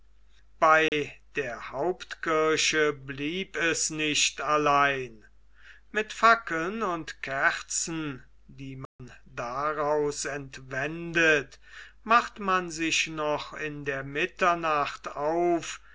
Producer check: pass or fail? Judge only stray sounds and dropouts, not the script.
fail